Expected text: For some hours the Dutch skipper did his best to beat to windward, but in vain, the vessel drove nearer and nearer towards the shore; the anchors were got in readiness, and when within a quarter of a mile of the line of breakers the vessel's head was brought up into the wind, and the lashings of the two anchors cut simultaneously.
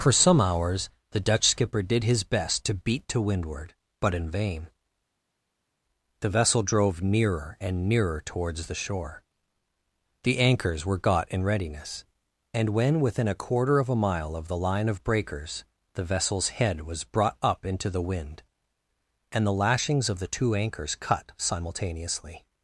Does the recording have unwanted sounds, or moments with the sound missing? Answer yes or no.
no